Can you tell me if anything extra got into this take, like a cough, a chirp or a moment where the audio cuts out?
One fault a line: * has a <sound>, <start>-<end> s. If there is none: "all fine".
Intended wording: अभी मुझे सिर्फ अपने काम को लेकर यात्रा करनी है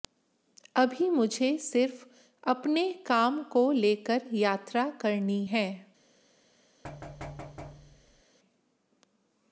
* has a thud, 6.8-8.2 s